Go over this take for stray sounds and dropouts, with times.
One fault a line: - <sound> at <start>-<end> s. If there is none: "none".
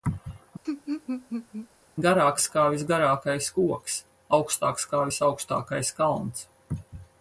- laugh at 0.6-1.7 s